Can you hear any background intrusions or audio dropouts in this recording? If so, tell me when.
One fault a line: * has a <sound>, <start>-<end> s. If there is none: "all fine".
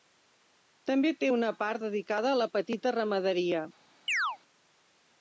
* has a chirp, 4.1-4.4 s